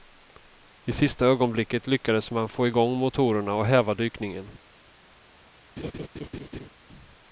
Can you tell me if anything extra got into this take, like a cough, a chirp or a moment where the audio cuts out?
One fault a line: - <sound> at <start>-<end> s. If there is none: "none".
- laugh at 5.8-6.7 s